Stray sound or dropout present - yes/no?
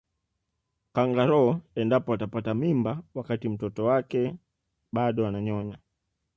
no